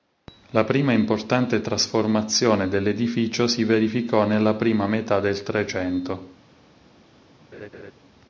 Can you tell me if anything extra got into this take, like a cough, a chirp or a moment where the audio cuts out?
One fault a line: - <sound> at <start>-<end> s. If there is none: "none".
- laugh at 7.5-7.9 s